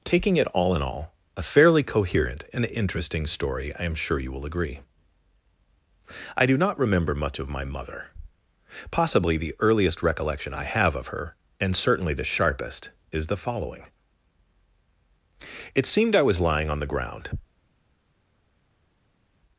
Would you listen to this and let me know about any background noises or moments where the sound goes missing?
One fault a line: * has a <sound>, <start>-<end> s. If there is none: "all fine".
all fine